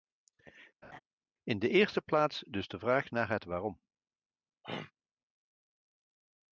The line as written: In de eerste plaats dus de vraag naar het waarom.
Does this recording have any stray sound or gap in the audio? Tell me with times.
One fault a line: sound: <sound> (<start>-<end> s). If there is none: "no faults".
sound: laugh (0.8-1.0 s)
sound: throat clearing (4.6-4.9 s)